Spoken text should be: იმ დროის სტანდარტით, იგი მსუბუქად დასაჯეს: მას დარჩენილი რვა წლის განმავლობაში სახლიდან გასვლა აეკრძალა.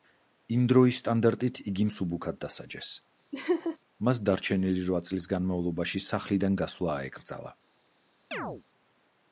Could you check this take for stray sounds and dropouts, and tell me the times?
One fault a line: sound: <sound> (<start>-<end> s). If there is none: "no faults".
sound: laugh (3.3-3.8 s)
sound: chirp (8.3-8.6 s)